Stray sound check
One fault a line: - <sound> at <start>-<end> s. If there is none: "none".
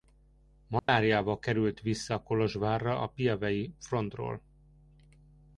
- dropout at 0.8-0.9 s